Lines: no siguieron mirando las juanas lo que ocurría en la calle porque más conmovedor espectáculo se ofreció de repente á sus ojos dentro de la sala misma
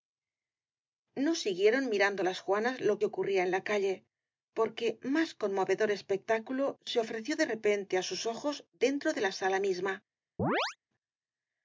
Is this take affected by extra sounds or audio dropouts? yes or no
yes